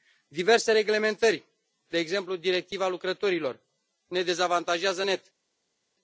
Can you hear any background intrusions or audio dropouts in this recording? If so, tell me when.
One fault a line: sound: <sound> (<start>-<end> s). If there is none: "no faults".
no faults